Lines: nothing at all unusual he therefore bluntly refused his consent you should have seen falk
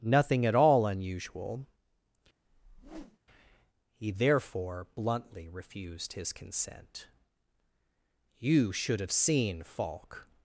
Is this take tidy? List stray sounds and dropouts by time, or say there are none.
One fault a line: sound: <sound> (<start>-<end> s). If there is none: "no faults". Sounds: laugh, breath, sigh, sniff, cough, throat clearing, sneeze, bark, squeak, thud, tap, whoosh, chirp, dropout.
sound: whoosh (2.4-3.2 s)